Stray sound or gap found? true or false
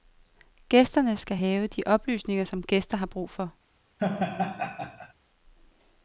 true